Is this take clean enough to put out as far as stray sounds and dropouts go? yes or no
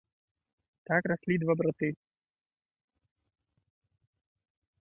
yes